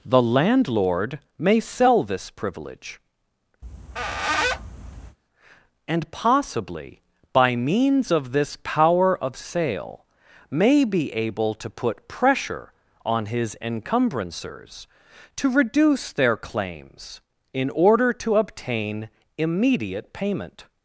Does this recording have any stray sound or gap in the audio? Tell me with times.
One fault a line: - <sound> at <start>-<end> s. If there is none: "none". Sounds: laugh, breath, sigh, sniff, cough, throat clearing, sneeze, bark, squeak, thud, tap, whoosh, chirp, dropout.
- squeak at 3.6-5.2 s